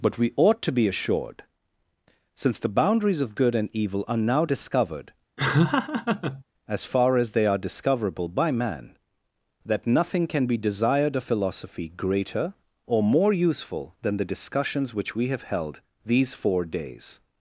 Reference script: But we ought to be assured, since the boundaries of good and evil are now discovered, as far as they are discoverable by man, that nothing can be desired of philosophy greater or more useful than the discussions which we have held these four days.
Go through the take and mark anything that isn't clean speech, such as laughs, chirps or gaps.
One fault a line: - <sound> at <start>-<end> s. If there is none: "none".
- laugh at 5.4-6.4 s